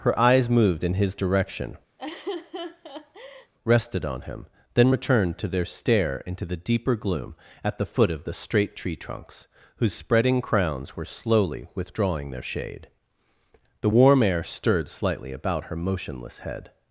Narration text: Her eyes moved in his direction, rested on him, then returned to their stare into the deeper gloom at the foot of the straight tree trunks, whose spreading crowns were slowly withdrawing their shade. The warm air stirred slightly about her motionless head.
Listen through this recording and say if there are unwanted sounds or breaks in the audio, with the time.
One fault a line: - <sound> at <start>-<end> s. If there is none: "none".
- laugh at 2.0-3.5 s